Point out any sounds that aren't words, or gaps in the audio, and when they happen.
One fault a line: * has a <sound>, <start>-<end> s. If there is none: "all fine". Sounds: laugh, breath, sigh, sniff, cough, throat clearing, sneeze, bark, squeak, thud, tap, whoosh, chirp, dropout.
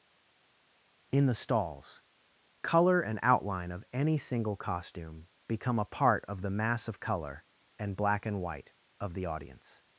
all fine